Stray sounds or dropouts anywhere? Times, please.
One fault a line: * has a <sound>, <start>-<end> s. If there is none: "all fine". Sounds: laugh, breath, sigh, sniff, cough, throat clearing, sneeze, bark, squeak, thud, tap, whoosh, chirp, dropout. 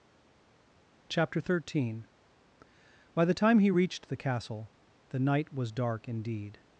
all fine